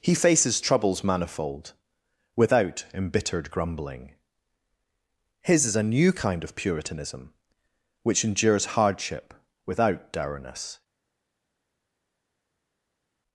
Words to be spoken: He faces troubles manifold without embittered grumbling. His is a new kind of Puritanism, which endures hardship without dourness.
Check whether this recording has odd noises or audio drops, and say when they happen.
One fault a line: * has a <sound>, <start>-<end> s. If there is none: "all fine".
all fine